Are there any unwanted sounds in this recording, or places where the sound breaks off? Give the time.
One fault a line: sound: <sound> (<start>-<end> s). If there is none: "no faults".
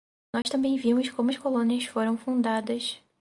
sound: dropout (0.4-0.4 s)